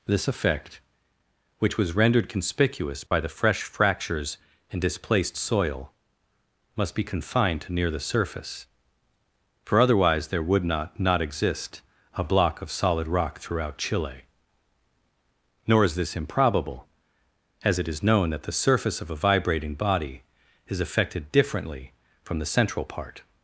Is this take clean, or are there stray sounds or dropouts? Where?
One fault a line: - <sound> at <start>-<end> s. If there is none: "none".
- dropout at 3.1-3.1 s